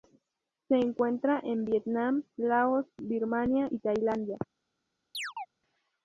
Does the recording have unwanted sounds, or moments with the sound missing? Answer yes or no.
yes